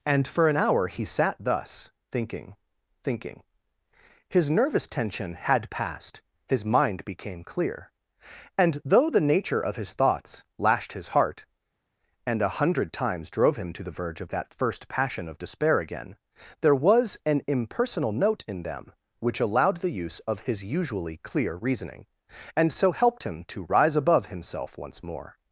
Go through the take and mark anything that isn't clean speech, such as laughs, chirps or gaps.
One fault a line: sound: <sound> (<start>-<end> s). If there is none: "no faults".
no faults